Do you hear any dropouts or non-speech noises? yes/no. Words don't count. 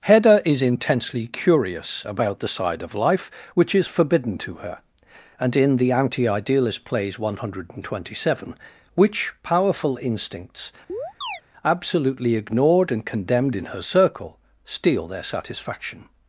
yes